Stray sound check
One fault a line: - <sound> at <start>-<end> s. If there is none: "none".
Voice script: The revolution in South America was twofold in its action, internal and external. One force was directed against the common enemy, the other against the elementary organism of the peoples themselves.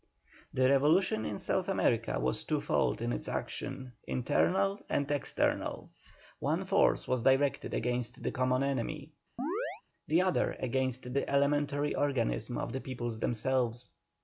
- chirp at 9.4-9.8 s